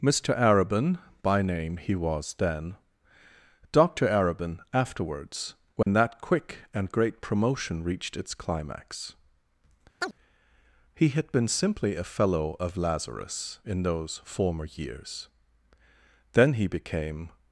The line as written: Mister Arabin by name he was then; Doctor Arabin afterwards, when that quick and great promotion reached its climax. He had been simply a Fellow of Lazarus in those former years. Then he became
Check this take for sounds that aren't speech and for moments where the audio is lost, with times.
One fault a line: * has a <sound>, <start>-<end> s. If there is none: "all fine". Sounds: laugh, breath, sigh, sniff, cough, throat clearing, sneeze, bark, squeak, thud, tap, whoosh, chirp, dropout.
* has a dropout, 5.8-5.9 s
* has a chirp, 10.0-10.2 s